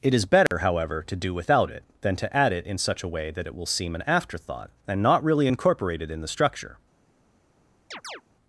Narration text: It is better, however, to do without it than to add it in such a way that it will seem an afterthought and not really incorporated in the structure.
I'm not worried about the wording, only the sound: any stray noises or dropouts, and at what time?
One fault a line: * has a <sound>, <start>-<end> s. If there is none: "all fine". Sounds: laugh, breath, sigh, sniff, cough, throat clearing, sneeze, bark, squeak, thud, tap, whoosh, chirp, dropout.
* has a dropout, 0.5-0.5 s
* has a chirp, 7.9-8.2 s